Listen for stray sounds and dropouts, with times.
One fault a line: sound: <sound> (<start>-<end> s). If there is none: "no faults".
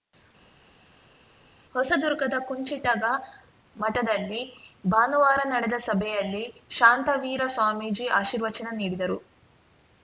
no faults